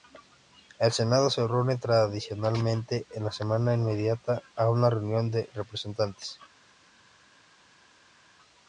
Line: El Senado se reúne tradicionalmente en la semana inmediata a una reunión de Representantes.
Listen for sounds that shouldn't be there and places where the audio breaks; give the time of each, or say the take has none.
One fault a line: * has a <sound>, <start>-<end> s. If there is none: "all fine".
all fine